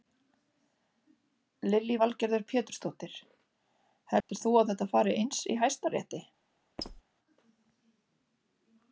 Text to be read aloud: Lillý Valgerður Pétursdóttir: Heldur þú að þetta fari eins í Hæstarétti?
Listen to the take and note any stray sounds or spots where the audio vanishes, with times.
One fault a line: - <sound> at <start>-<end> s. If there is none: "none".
- dropout at 4.2-4.3 s
- squeak at 6.8-7.0 s